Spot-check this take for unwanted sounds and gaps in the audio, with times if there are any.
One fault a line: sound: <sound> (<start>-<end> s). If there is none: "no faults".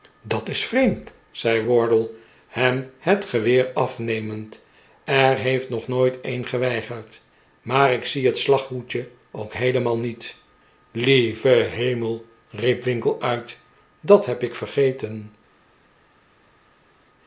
no faults